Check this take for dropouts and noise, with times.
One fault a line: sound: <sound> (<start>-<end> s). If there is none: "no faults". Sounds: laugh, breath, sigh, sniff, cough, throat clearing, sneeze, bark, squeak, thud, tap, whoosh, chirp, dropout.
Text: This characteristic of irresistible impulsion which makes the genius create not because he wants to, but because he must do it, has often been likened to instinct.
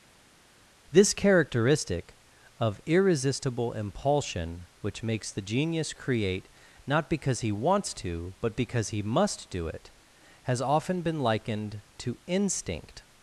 no faults